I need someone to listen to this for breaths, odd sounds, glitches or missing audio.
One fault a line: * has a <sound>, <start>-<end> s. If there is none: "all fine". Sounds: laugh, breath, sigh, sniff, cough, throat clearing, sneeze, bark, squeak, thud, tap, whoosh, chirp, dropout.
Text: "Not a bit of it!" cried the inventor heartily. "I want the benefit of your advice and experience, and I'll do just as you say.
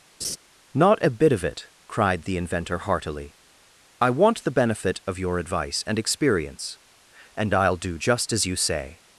* has a laugh, 0.2-0.4 s